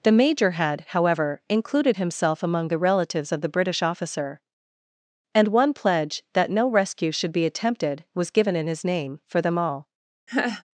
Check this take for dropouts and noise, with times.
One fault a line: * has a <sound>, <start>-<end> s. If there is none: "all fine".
* has a laugh, 10.3-10.6 s